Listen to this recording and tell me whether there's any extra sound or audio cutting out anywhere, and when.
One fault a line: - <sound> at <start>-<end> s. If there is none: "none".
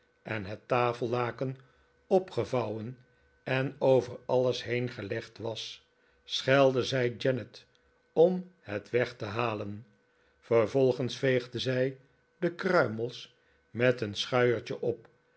none